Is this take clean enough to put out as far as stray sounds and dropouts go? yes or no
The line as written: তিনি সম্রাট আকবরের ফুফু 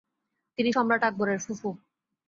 yes